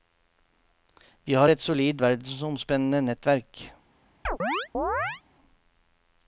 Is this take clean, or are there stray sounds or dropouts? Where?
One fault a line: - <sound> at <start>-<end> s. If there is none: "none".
- chirp at 4.2-5.2 s